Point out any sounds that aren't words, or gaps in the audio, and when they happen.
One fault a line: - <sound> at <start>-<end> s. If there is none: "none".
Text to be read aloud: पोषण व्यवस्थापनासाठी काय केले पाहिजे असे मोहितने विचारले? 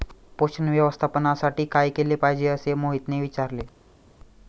none